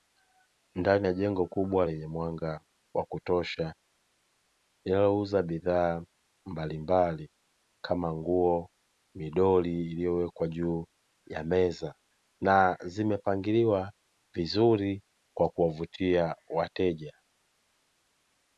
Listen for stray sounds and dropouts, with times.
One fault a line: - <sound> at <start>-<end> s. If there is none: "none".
none